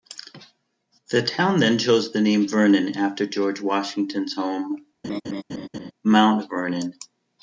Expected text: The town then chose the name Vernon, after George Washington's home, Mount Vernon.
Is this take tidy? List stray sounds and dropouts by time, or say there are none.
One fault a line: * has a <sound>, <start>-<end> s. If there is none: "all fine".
* has a laugh, 5.0-5.9 s